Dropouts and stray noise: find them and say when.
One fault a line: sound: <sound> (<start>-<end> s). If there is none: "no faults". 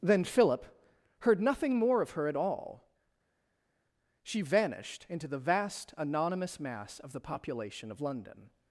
no faults